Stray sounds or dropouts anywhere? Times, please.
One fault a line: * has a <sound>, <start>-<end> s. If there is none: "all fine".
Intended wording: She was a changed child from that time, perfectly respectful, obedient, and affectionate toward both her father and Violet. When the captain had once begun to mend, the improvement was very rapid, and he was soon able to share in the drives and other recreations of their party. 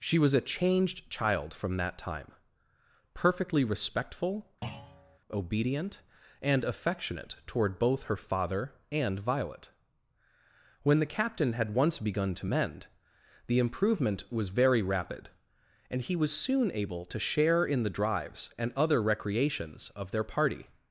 * has a thud, 4.6-5.2 s